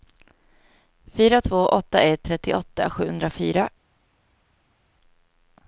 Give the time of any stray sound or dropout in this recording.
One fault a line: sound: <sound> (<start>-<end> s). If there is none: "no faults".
no faults